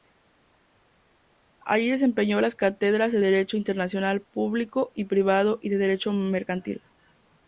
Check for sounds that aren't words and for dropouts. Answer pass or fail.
pass